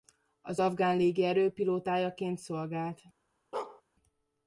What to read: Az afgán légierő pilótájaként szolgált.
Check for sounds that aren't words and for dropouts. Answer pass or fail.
fail